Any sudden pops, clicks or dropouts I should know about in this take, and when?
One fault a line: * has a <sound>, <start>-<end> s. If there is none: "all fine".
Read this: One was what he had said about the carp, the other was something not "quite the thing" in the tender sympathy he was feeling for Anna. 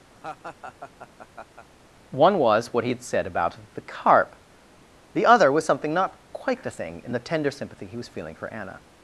* has a laugh, 0.1-1.7 s